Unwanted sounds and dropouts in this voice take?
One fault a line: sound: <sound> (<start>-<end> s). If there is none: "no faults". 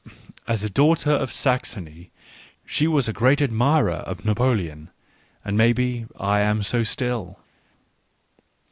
no faults